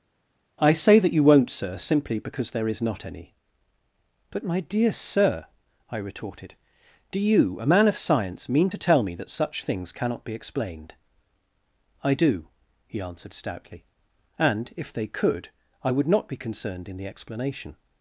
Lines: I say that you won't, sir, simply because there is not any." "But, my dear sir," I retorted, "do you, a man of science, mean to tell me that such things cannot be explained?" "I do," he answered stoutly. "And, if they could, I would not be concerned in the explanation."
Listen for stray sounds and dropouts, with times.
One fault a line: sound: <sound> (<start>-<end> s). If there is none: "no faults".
no faults